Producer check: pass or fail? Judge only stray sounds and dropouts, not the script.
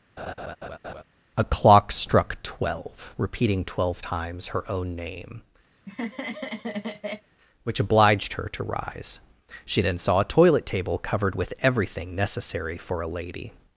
fail